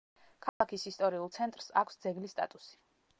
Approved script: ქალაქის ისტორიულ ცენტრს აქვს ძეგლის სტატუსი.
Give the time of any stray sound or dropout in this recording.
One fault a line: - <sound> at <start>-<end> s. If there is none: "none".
- dropout at 0.5-0.6 s